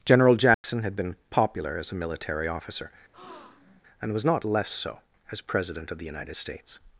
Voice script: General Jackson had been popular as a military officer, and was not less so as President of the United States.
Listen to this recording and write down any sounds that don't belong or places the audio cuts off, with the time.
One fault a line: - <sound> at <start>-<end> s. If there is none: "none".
- dropout at 0.5-0.6 s
- breath at 3.1-3.8 s